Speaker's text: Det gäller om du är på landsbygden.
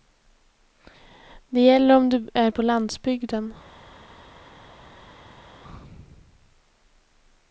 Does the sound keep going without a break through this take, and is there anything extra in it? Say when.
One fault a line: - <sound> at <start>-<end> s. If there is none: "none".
none